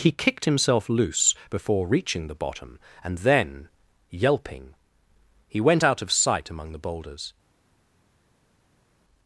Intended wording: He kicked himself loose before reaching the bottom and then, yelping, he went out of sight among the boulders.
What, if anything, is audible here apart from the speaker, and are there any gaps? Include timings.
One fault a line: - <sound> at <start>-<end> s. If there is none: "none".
none